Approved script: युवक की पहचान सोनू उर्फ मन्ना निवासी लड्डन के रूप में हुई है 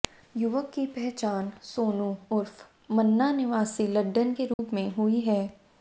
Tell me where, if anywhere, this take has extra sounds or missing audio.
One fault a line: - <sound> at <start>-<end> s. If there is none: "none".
- dropout at 4.5-4.6 s